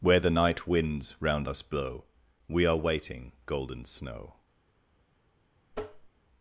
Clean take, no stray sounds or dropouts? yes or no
no